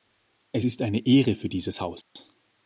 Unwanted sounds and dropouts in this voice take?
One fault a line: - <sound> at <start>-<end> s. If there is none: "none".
- dropout at 2.0-2.2 s